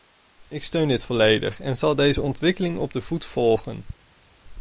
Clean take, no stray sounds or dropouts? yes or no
yes